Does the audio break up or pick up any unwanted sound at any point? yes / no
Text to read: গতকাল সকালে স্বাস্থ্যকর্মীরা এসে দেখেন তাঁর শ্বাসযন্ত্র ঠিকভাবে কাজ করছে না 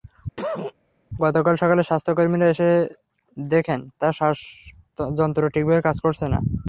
yes